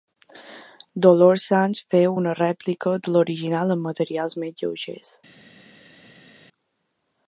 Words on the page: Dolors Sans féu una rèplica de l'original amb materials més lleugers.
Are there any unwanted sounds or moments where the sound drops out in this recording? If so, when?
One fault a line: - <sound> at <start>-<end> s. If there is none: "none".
none